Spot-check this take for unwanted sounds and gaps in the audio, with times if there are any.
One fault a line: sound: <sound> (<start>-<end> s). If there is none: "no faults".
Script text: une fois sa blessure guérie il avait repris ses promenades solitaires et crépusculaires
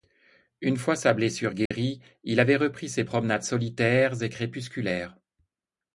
sound: dropout (1.7-1.7 s)